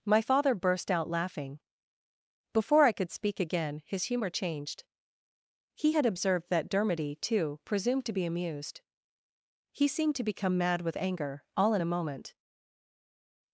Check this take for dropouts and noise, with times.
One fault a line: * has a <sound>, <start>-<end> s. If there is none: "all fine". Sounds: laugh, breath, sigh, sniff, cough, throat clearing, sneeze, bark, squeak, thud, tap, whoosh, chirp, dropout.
all fine